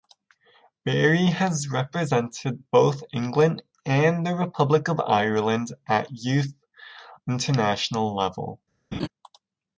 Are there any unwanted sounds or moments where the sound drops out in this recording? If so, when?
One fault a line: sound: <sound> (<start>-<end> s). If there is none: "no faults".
sound: laugh (8.9-9.1 s)